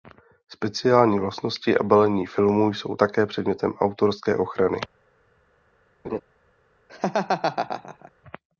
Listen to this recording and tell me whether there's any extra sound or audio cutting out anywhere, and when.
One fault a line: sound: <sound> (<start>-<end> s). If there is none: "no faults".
sound: laugh (6.0-6.2 s)
sound: laugh (6.9-8.1 s)